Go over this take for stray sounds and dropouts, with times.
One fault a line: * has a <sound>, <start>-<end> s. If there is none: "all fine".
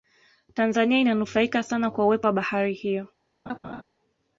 * has a laugh, 3.5-3.8 s